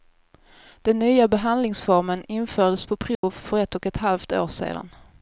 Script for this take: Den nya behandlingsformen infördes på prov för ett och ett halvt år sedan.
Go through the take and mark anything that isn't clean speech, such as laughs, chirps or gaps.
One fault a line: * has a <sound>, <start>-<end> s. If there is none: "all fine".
* has a dropout, 3.1-3.2 s